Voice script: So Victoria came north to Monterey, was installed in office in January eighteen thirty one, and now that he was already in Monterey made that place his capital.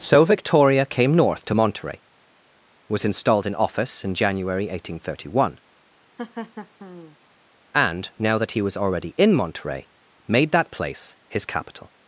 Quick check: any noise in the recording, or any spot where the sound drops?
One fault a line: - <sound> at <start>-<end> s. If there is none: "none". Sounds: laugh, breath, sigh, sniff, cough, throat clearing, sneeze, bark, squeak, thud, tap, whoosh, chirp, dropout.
- laugh at 6.2-7.2 s